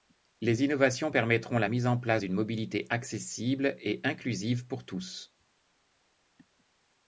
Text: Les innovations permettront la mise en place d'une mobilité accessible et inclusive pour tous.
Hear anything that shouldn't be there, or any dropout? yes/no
no